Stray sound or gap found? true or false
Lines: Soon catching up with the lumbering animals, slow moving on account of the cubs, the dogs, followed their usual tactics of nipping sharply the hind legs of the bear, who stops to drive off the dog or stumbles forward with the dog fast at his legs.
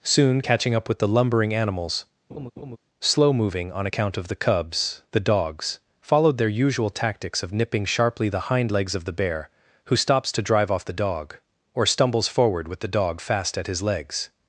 true